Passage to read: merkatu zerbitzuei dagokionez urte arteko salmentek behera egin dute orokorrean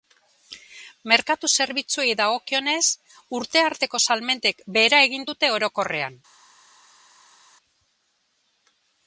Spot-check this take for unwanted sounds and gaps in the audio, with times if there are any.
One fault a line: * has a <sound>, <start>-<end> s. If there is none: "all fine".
all fine